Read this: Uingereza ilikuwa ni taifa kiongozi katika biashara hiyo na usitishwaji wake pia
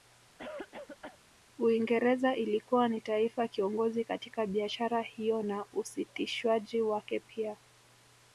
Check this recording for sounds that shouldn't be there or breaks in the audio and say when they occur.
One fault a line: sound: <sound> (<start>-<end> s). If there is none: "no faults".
sound: cough (0.4-1.2 s)